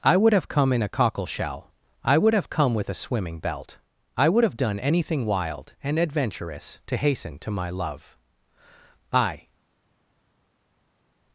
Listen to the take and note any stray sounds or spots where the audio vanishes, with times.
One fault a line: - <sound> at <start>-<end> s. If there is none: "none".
none